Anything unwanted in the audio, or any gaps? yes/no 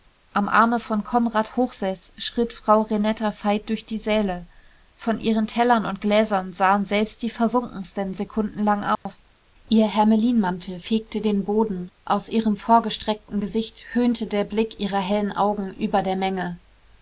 yes